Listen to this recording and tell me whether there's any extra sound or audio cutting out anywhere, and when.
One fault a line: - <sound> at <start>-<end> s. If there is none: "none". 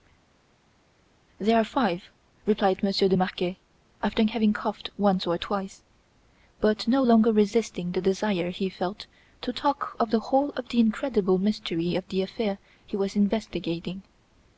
none